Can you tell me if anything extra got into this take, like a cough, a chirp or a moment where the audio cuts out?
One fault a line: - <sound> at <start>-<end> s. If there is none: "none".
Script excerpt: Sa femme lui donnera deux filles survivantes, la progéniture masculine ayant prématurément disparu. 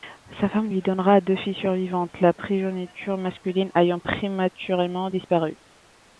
none